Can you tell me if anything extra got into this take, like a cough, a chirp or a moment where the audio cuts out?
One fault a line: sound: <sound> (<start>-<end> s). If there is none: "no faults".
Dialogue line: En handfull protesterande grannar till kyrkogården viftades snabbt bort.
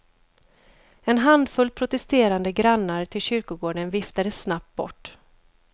no faults